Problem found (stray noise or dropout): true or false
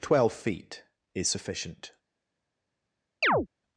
true